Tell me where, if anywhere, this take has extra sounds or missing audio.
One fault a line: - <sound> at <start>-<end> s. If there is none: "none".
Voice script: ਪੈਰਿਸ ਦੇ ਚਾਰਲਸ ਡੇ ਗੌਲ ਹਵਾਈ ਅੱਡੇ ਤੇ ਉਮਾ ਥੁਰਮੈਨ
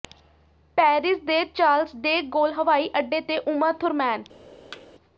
- thud at 4.7-4.9 s